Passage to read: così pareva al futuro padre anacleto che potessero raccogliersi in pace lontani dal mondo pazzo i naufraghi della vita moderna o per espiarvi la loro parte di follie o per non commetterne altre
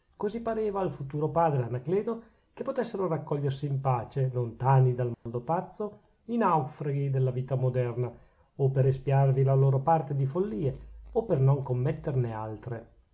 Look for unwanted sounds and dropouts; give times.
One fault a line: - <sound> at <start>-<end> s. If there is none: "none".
- dropout at 5.1-5.3 s